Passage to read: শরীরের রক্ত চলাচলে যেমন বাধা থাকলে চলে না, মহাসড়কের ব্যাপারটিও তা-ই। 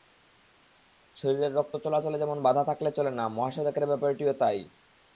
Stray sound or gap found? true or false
false